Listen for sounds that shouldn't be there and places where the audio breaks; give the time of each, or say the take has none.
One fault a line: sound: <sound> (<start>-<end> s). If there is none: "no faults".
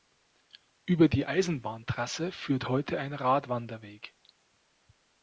no faults